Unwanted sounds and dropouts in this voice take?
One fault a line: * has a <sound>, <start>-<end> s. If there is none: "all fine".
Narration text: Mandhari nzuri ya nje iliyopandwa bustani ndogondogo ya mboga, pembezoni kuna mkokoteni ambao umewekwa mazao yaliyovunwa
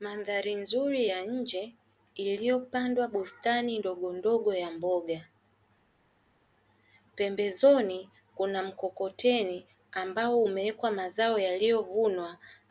all fine